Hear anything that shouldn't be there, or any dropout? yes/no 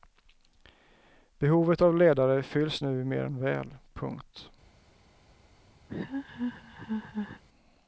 yes